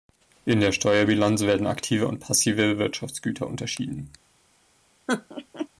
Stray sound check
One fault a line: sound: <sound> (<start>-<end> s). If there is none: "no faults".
sound: laugh (5.1-5.7 s)